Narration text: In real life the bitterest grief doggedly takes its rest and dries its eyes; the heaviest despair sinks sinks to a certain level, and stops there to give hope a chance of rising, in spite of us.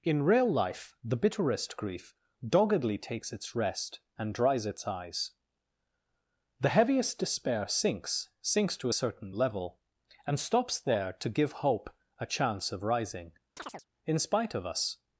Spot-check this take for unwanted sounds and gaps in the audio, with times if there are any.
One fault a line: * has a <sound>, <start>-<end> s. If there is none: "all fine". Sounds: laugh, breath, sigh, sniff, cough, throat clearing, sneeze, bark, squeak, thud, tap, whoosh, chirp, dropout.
* has a chirp, 13.6-13.9 s